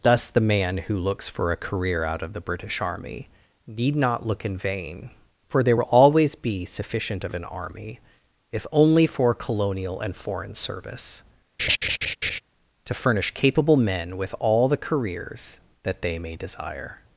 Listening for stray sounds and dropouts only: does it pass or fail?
fail